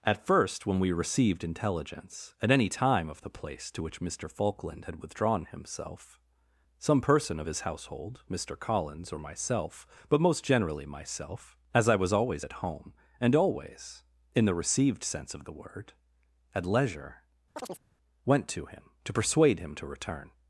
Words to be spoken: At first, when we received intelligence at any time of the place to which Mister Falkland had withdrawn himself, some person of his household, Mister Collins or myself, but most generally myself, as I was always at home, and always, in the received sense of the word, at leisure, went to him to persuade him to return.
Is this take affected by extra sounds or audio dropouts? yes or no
yes